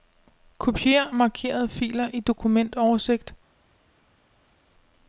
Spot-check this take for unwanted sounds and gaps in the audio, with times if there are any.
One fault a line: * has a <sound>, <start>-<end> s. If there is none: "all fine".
all fine